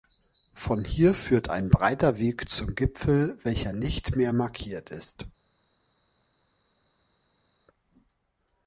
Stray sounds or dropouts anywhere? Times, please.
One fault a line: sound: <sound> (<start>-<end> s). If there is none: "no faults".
no faults